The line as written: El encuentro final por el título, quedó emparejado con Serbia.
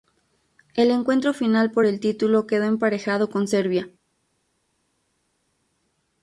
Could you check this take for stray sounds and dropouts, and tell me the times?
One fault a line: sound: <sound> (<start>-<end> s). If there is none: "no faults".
no faults